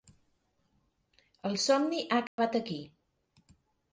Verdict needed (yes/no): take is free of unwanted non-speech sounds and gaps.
no